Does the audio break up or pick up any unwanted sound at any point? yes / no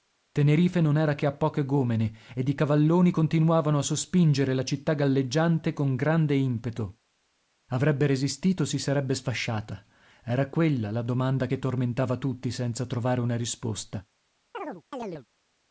yes